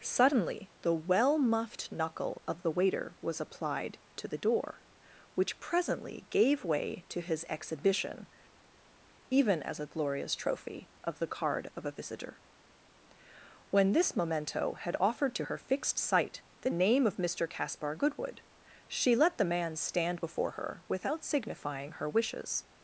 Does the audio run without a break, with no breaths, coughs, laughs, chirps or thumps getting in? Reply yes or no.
yes